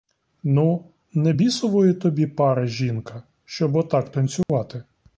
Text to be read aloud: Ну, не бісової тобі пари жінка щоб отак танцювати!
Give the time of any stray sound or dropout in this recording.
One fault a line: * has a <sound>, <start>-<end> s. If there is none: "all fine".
* has a dropout, 4.4-4.5 s